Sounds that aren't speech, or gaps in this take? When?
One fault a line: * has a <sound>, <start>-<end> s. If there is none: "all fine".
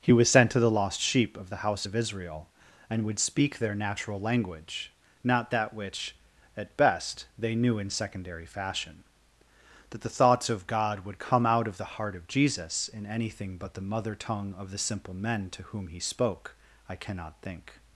all fine